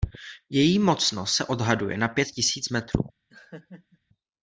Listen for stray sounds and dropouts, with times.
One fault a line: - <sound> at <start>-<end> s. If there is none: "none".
- laugh at 3.3-4.0 s